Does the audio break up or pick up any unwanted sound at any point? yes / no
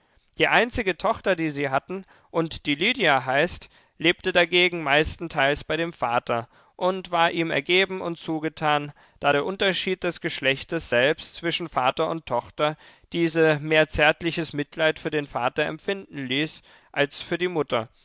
no